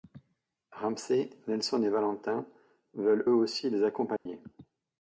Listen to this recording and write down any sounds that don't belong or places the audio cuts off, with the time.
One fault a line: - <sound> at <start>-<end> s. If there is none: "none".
- dropout at 4.2-4.3 s